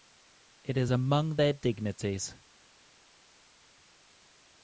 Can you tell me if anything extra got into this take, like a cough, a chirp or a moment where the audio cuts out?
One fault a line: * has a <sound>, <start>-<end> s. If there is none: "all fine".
all fine